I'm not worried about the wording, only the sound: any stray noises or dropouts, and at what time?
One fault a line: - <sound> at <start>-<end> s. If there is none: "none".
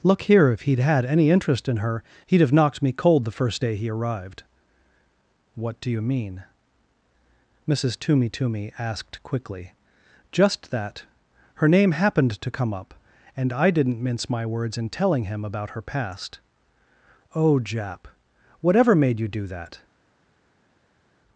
none